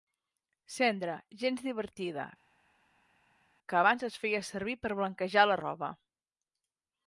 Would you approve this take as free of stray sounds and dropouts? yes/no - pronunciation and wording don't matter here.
yes